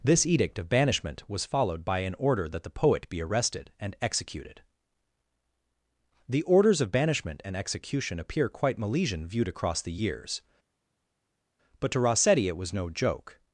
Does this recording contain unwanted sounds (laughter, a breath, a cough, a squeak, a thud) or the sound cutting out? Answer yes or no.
no